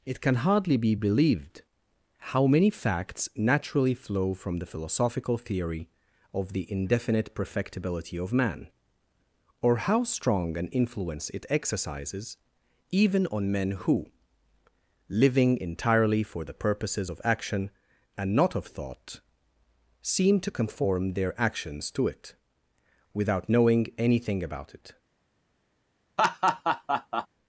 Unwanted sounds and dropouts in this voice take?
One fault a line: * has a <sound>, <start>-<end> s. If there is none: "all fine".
* has a laugh, 26.2-27.3 s